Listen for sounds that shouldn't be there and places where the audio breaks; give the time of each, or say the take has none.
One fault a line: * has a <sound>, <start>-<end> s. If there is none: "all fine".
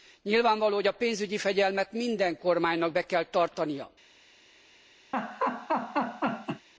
* has a laugh, 5.1-6.7 s